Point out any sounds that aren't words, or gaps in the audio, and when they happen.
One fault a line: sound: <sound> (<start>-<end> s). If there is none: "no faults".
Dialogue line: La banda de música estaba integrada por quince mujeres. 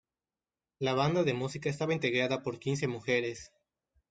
no faults